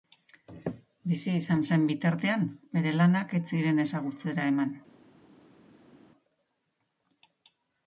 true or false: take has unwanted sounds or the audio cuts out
false